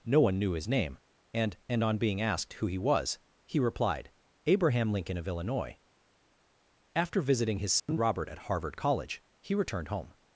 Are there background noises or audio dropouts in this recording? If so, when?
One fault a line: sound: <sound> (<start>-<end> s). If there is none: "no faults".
sound: dropout (7.8-7.9 s)